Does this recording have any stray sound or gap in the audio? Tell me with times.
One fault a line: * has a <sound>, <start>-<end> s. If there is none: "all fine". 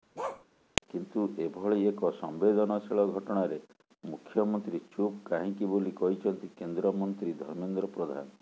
* has a bark, 0.2-0.5 s